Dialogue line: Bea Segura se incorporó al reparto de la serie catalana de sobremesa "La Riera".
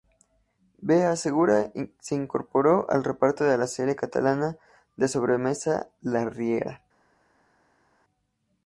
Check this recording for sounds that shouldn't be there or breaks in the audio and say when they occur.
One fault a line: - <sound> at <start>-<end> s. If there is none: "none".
none